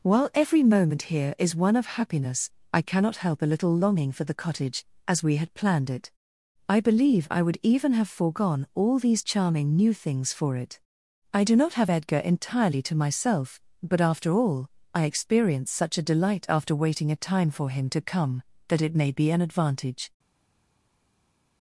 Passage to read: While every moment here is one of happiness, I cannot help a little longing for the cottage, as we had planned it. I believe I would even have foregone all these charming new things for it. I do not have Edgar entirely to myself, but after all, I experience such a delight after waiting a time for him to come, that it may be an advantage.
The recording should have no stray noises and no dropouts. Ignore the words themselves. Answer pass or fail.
pass